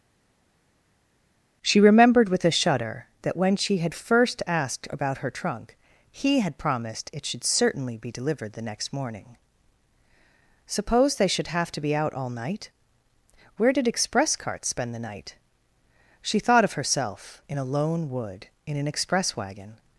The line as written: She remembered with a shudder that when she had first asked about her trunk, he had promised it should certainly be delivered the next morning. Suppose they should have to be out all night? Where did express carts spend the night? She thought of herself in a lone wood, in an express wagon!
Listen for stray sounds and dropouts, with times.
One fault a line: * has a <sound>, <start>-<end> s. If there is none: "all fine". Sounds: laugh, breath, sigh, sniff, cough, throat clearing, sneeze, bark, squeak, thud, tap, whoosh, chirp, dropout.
all fine